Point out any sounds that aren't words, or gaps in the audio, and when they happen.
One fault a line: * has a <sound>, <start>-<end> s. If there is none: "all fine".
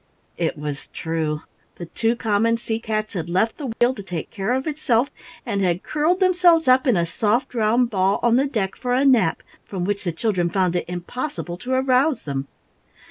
* has a dropout, 3.7-3.8 s